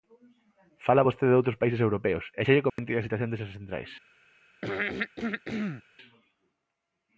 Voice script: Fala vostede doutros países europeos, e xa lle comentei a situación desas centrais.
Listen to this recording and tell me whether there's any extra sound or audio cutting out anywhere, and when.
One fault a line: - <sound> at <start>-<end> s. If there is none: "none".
- dropout at 2.7-2.8 s
- throat clearing at 4.6-5.8 s